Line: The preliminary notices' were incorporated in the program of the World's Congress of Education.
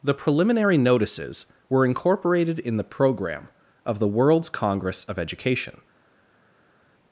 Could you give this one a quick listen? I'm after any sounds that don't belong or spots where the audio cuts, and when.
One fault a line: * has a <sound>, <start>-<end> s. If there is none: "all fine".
all fine